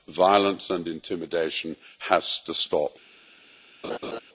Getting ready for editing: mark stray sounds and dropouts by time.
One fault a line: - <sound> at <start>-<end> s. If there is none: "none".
- laugh at 3.8-4.2 s